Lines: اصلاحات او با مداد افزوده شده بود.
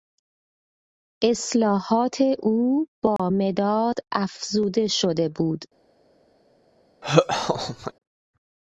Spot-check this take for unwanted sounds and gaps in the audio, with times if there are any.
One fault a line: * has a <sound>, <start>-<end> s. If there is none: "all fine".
* has a dropout, 3.2-3.2 s
* has a laugh, 7.0-7.9 s